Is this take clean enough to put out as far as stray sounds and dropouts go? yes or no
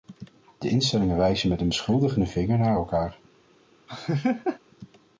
no